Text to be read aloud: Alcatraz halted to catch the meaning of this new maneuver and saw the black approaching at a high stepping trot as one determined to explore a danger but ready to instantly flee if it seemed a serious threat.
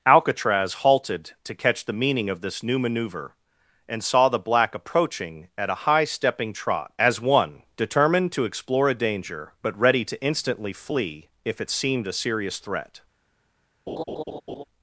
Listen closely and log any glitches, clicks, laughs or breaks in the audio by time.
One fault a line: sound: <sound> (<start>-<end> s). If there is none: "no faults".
sound: laugh (13.9-14.6 s)